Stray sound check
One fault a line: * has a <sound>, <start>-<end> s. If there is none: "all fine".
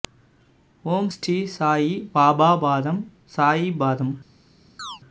* has a chirp, 4.8-5.0 s